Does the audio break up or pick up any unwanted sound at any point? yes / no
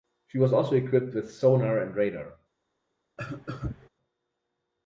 yes